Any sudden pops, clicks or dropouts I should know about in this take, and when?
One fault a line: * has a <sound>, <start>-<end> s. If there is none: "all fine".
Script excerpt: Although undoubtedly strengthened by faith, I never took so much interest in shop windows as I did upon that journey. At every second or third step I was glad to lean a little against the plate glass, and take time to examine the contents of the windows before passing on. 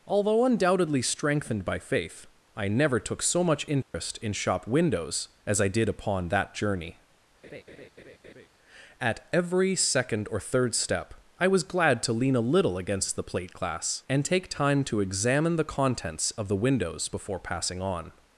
* has a dropout, 3.8-3.9 s
* has a laugh, 7.4-8.5 s